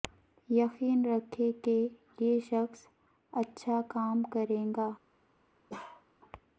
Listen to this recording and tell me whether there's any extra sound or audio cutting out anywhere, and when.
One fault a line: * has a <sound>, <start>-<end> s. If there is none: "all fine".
* has a bark, 5.7-6.1 s